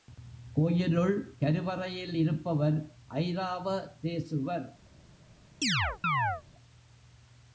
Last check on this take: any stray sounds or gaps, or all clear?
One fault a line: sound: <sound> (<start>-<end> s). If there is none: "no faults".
sound: chirp (5.6-6.4 s)